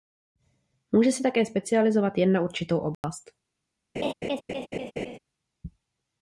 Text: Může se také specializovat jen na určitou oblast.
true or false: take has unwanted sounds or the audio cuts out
true